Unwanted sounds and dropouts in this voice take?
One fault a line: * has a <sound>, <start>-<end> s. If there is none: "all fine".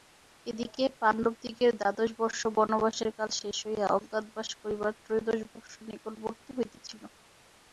all fine